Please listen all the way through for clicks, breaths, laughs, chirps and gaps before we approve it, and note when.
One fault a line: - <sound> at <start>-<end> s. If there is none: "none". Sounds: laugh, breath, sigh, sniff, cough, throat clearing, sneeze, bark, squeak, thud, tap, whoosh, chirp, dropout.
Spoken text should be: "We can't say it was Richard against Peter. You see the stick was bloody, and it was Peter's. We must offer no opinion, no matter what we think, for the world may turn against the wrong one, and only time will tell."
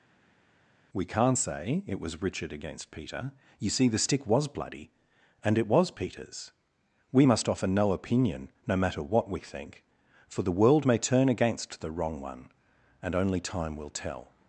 none